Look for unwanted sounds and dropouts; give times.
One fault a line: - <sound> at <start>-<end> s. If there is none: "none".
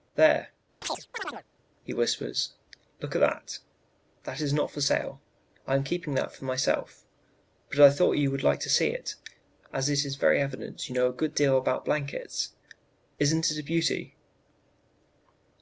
- chirp at 0.8-1.4 s